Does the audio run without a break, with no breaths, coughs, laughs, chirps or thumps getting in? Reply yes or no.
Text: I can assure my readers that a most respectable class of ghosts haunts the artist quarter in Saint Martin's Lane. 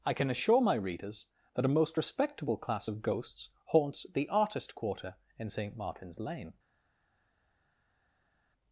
yes